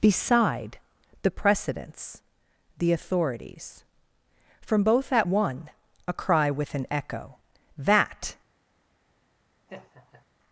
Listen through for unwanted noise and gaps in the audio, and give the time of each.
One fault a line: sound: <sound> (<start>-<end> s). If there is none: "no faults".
sound: laugh (9.7-10.3 s)